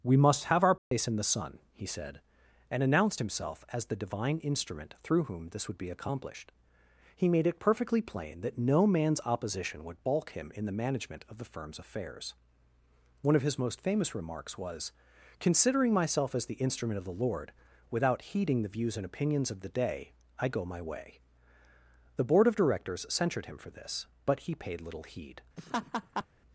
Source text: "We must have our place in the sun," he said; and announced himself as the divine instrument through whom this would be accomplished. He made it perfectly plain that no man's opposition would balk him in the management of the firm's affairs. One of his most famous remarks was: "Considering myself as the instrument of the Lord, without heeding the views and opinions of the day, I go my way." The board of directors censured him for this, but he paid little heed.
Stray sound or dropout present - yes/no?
yes